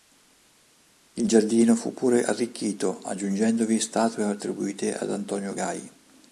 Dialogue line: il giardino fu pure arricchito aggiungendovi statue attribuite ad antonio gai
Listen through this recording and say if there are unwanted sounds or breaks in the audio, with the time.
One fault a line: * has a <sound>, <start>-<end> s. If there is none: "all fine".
all fine